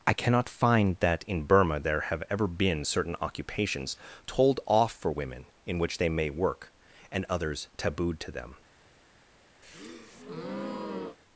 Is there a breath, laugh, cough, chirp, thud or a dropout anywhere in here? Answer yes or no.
yes